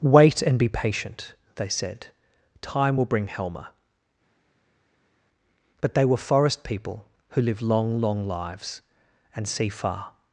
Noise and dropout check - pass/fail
pass